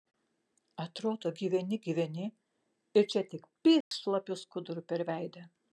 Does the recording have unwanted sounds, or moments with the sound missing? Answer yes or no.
yes